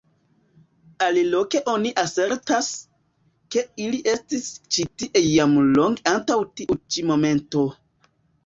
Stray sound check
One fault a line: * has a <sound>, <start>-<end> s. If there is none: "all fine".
all fine